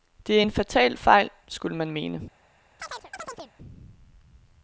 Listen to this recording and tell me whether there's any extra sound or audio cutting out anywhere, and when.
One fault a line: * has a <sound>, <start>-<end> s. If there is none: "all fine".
* has a chirp, 2.8-3.5 s